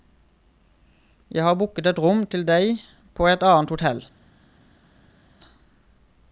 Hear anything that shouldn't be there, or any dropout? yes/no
no